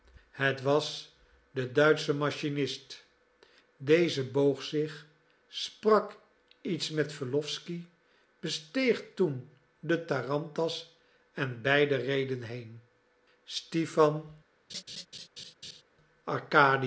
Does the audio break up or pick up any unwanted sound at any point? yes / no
yes